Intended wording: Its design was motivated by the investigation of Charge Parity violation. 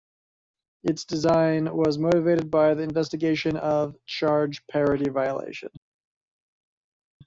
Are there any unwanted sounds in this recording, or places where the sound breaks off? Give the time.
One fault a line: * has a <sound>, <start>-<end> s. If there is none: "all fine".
all fine